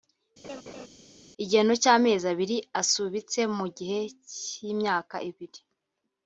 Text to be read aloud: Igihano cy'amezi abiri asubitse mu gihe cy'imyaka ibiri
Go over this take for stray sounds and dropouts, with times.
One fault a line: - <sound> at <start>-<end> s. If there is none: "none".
- laugh at 0.4-0.9 s